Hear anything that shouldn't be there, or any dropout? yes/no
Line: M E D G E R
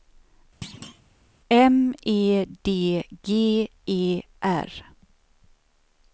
yes